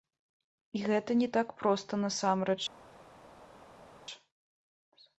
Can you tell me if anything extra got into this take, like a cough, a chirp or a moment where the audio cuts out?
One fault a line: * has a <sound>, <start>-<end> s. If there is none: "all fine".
all fine